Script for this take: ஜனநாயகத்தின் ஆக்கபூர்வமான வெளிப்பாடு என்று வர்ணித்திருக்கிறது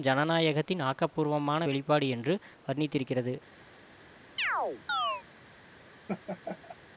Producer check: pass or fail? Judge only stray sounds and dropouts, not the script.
fail